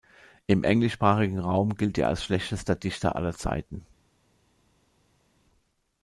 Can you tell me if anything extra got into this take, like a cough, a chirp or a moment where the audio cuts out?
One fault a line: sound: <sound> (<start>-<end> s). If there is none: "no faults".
no faults